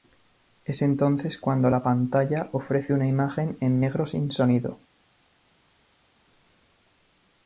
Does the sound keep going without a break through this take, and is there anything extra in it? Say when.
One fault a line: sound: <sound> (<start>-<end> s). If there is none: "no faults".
no faults